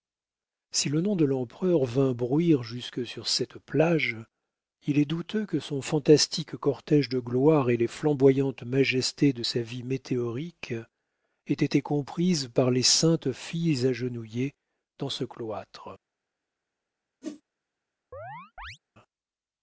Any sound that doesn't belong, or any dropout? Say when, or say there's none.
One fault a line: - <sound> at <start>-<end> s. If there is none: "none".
- whoosh at 17.2-17.4 s
- chirp at 18.1-18.8 s